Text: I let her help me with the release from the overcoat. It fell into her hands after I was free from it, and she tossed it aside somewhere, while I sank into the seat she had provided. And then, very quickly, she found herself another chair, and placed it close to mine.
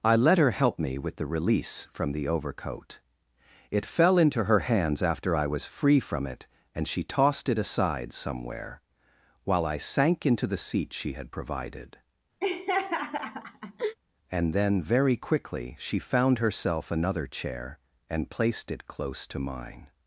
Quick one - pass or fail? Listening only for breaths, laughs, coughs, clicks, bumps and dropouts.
fail